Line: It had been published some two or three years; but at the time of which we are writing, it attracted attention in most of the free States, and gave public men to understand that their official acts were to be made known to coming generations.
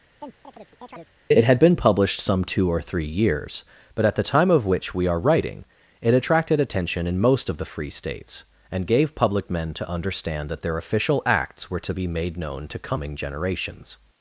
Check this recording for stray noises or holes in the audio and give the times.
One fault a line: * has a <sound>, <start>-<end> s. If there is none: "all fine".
* has a chirp, 0.2-1.1 s